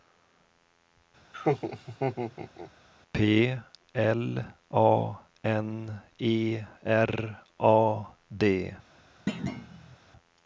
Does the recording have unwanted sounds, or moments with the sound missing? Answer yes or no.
yes